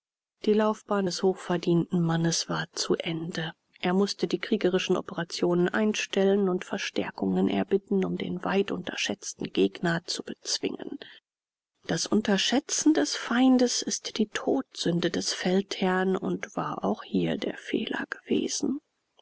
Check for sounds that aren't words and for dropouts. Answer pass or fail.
pass